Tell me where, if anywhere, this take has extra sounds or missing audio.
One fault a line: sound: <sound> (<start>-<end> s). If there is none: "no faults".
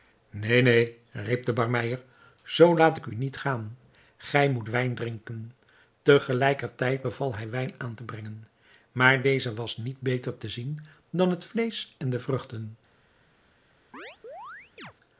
sound: chirp (13.9-14.9 s)